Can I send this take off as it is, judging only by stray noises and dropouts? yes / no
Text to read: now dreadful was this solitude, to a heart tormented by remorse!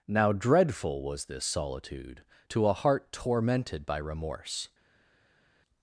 yes